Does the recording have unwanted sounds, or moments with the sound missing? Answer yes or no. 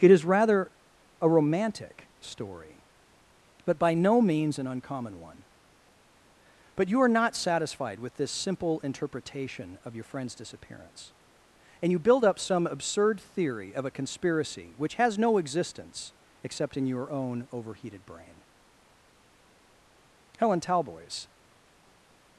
no